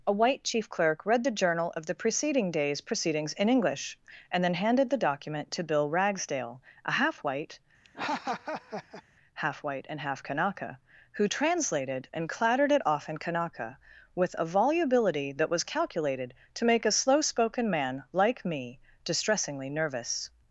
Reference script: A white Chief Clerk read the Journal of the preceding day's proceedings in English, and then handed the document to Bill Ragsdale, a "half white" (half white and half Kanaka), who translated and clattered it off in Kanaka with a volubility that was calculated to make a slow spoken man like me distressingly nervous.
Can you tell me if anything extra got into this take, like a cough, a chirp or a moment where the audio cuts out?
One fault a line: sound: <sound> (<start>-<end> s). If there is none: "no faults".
sound: laugh (7.8-9.0 s)